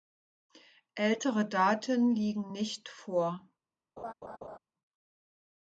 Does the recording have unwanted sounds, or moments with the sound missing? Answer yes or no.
yes